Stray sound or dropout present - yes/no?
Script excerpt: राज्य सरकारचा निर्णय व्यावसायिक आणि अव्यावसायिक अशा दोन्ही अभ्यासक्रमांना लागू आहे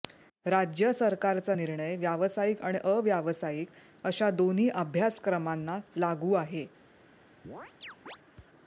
yes